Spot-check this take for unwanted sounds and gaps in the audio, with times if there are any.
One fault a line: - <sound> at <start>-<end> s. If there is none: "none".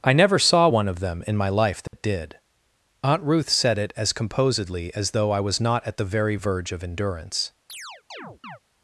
- dropout at 1.9-1.9 s
- chirp at 7.7-8.6 s